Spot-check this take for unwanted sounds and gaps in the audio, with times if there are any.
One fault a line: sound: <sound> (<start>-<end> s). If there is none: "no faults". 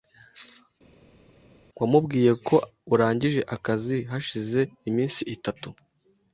no faults